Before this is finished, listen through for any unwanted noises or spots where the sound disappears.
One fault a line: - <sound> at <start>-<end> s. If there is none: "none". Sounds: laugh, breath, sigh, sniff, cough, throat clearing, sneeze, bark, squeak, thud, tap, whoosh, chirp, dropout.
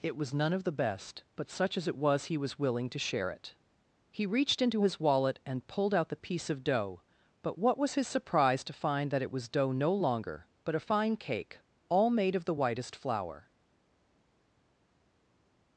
none